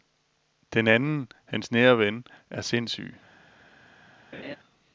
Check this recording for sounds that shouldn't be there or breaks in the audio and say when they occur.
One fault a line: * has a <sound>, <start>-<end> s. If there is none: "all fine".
* has a laugh, 4.3-4.6 s